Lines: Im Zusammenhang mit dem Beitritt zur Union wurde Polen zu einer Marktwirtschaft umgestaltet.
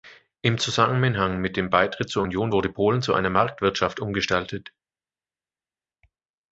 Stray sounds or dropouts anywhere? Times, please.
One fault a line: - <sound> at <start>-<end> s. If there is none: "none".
none